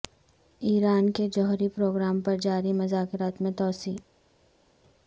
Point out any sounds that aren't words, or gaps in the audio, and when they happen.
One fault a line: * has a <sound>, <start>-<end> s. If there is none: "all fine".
all fine